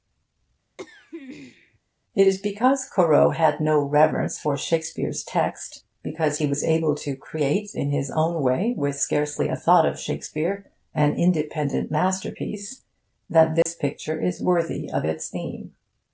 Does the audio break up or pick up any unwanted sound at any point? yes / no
yes